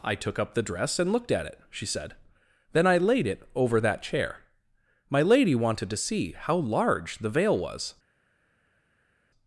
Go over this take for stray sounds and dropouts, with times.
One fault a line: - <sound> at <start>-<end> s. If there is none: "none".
none